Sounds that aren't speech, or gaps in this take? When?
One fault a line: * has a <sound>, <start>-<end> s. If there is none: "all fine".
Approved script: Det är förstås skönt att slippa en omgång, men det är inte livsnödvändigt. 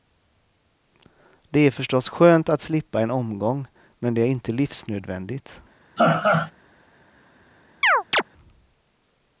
* has a laugh, 6.0-6.5 s
* has a chirp, 7.8-8.2 s